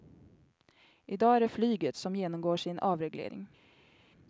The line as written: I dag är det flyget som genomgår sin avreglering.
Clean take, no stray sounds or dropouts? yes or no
yes